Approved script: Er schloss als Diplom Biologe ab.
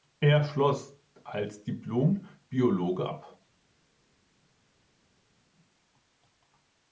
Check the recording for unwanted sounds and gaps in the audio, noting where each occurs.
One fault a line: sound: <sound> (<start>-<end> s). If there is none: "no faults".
no faults